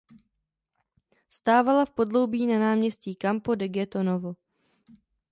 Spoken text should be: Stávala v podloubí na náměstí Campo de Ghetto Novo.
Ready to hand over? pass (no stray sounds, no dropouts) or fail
pass